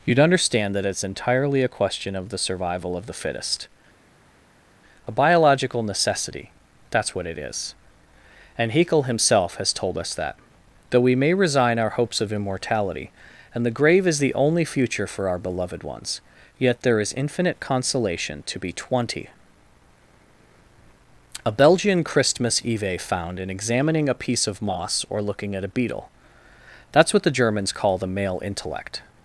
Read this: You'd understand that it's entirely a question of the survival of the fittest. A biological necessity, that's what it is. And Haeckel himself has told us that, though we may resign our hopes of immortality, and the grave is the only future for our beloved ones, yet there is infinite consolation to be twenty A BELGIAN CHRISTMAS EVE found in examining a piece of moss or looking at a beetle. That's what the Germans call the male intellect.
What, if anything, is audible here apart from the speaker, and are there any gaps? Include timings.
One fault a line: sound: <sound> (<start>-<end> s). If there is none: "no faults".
no faults